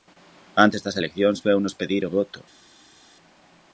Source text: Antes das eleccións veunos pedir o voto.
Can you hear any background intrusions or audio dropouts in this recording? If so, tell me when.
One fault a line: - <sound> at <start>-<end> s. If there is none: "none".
none